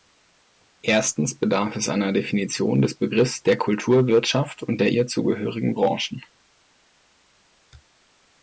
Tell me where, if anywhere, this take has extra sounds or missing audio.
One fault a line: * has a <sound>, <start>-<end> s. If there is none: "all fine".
all fine